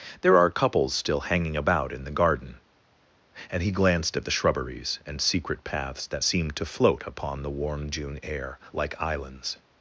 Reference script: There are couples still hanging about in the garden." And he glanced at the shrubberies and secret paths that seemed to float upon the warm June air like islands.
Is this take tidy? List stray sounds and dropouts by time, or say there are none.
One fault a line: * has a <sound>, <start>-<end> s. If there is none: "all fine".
all fine